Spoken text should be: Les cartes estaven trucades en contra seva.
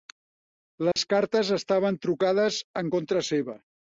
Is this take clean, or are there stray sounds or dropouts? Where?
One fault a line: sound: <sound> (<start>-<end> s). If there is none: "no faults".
sound: dropout (0.9-1.0 s)